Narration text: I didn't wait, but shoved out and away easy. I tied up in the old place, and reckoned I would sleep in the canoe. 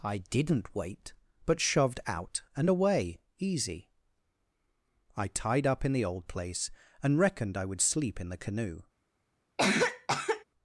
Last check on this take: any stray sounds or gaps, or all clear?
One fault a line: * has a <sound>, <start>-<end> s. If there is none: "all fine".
* has a cough, 9.6-10.4 s